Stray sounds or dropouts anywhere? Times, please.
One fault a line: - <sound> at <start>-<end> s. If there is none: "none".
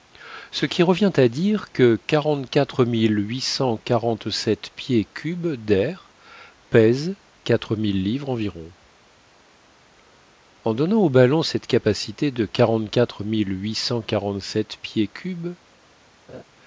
- laugh at 16.3-16.4 s